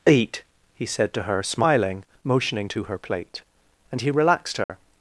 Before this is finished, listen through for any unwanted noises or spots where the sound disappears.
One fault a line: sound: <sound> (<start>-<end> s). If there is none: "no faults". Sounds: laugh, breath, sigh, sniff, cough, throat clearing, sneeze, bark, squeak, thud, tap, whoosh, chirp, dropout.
sound: dropout (4.6-4.7 s)